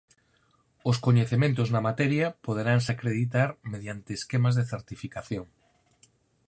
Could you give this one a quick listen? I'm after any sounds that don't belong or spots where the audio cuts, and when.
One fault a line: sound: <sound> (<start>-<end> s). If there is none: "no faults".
no faults